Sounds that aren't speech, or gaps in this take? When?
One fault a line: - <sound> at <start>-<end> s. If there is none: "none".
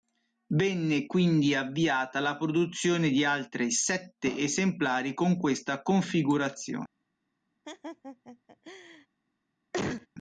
- laugh at 7.6-9.1 s
- cough at 9.7-10.1 s